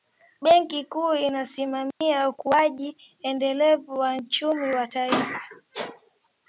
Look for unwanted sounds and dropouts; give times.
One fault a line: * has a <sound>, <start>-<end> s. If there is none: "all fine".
* has a dropout, 1.9-2.0 s